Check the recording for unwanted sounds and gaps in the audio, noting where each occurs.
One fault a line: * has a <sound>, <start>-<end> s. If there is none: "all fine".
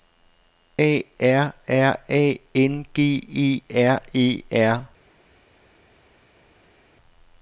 all fine